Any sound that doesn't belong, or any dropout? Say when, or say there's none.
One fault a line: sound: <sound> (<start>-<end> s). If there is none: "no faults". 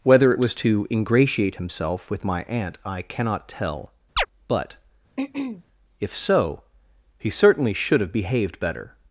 sound: chirp (4.2-4.3 s)
sound: throat clearing (5.2-5.6 s)